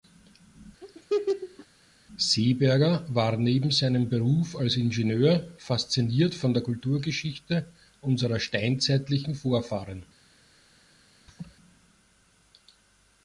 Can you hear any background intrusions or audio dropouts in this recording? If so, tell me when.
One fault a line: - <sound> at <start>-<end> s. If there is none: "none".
- laugh at 0.8-1.7 s
- laugh at 11.3-11.6 s